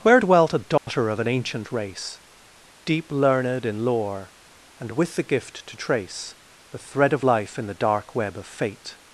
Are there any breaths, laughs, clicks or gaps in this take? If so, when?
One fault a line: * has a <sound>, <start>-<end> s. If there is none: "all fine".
* has a dropout, 0.8-0.9 s